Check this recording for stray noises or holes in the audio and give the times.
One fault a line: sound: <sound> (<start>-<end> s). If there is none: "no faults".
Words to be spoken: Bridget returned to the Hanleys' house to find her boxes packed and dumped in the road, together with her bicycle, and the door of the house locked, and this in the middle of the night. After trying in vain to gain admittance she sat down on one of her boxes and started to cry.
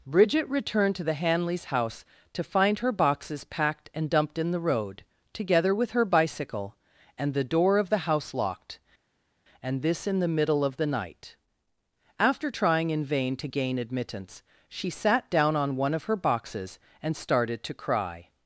no faults